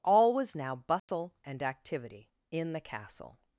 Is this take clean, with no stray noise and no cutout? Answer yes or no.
no